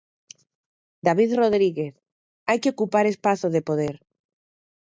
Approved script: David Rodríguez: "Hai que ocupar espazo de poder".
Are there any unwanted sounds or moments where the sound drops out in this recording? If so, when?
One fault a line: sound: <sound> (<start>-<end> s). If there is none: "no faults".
no faults